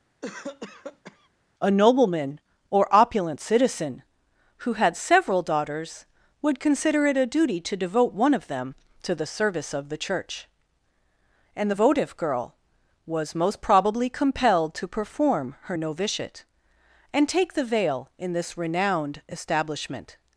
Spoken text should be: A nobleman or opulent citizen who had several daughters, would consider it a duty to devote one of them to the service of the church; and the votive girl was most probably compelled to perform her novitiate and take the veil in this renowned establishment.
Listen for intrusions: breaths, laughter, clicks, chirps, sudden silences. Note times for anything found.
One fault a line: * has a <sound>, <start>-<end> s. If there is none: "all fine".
* has a cough, 0.2-1.3 s